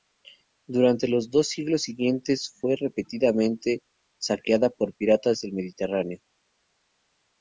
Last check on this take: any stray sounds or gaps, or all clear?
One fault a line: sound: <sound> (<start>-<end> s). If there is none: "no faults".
no faults